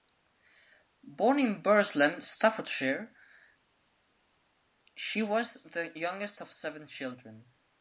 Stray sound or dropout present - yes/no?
no